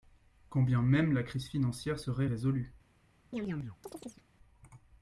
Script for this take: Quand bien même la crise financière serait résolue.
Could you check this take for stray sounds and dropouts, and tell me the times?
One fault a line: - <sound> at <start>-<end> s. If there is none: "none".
- chirp at 3.3-4.3 s